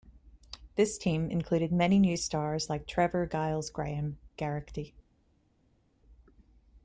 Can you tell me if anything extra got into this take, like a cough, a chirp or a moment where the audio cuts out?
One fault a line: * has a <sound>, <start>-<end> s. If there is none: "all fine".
all fine